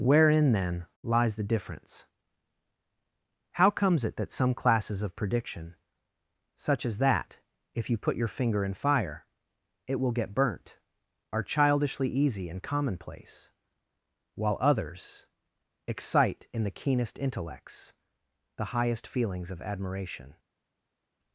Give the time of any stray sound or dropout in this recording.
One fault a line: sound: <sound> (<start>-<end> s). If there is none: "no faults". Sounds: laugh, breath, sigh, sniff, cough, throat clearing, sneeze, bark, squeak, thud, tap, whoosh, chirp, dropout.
no faults